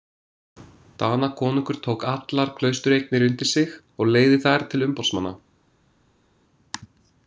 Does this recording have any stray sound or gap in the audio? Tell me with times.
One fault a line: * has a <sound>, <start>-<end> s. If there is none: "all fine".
all fine